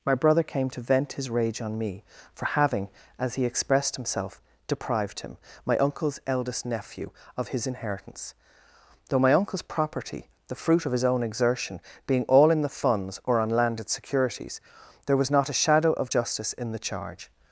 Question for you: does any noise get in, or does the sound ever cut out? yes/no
no